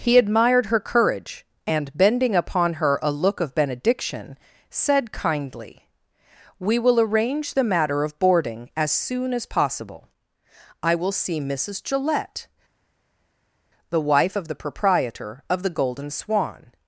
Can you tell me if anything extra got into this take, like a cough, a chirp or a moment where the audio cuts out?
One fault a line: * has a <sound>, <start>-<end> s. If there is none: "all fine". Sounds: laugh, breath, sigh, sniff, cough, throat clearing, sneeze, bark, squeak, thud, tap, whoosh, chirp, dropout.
all fine